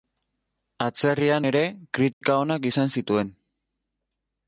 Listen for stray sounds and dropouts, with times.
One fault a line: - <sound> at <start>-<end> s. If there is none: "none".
- dropout at 2.1-2.2 s